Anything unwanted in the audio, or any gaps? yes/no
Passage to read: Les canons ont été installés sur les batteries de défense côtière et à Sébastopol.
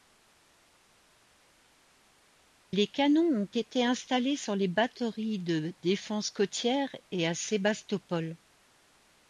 no